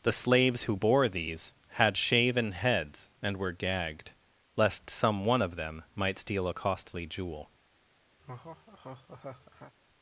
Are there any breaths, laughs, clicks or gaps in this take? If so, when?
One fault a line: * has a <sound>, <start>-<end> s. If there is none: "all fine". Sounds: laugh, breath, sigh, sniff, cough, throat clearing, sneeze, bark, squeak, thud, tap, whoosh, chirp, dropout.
* has a laugh, 8.2-9.7 s